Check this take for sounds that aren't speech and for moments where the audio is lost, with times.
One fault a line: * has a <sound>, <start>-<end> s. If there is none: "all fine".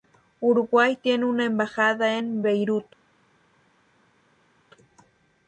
all fine